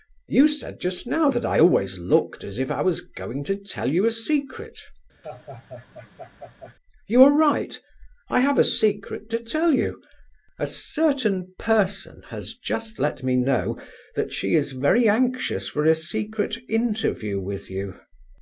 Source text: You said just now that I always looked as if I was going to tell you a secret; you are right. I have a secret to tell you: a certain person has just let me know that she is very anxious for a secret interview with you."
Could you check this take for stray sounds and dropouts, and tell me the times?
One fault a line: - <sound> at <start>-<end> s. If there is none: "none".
- laugh at 5.2-6.7 s